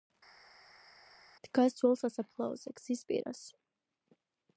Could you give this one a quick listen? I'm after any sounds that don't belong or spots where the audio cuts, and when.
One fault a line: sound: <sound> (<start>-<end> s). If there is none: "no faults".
no faults